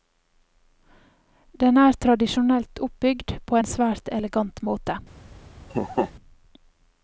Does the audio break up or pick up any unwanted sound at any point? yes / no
yes